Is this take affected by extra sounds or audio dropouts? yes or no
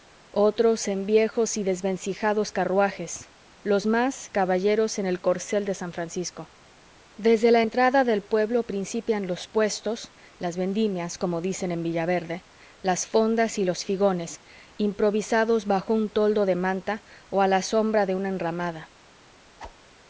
yes